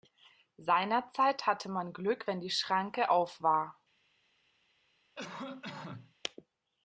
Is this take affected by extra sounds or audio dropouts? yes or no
yes